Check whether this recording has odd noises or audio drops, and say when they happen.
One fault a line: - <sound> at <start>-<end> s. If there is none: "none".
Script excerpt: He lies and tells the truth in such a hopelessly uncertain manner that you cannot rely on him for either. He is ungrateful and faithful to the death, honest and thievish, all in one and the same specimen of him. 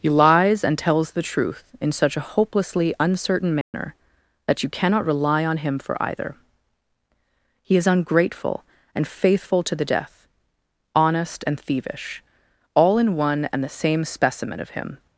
- dropout at 3.6-3.7 s